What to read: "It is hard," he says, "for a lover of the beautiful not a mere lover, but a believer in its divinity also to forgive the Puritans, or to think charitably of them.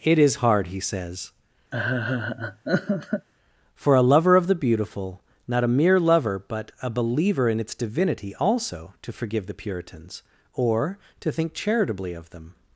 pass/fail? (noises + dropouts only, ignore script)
fail